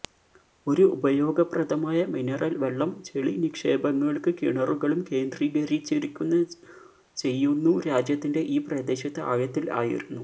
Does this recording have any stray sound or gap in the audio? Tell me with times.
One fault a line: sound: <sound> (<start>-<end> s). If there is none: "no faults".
no faults